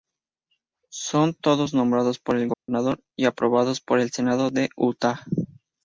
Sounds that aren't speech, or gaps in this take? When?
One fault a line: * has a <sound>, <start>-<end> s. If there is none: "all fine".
* has a dropout, 2.5-2.7 s